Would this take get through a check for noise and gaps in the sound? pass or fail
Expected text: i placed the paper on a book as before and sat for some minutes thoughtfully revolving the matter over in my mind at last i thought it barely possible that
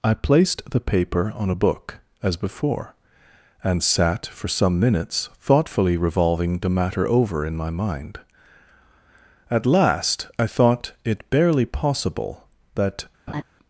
fail